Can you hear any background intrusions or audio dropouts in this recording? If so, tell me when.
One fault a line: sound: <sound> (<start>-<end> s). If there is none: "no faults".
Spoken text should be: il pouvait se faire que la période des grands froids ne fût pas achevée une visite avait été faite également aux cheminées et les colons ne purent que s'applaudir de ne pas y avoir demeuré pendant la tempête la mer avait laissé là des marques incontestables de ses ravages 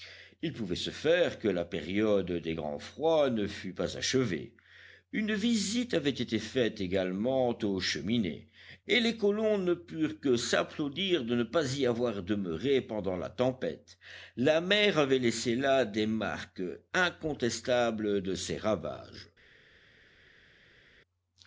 no faults